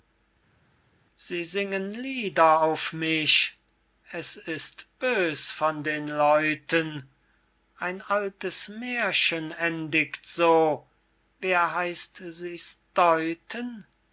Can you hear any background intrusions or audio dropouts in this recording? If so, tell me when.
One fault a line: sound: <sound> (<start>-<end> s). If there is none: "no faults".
no faults